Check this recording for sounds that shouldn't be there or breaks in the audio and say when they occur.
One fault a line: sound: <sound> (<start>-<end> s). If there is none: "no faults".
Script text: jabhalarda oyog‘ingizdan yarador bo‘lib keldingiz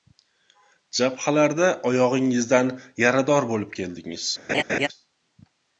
sound: laugh (4.5-4.9 s)